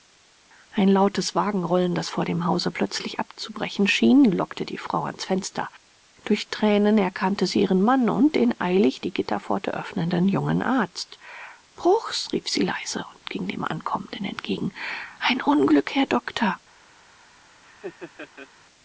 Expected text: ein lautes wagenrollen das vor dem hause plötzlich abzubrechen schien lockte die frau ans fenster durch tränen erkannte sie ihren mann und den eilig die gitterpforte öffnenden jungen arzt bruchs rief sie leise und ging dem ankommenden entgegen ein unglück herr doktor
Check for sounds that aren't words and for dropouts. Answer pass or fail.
fail